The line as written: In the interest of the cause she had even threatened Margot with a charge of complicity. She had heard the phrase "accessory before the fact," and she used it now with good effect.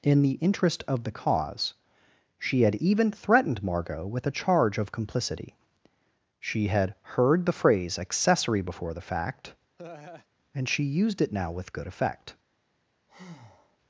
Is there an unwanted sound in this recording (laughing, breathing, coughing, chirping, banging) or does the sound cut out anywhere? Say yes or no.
yes